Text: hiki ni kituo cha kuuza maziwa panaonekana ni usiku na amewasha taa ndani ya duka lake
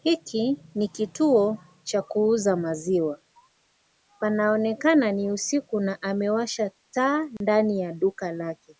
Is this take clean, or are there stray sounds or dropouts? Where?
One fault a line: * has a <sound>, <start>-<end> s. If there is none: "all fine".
* has a dropout, 7.4-7.4 s